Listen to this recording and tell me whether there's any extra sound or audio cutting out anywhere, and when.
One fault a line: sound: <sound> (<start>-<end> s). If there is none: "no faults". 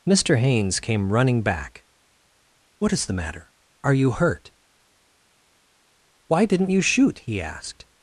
no faults